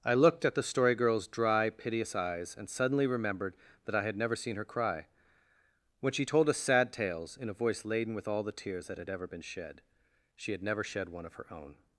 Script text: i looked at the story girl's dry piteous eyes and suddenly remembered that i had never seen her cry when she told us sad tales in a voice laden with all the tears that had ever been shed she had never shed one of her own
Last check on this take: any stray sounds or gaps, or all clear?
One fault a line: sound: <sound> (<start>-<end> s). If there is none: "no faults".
no faults